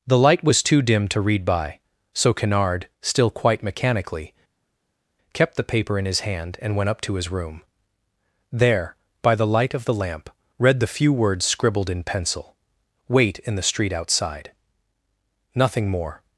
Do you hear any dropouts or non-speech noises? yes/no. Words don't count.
no